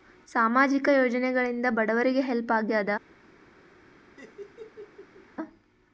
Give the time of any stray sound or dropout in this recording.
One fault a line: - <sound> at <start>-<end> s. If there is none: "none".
- laugh at 4.2-5.3 s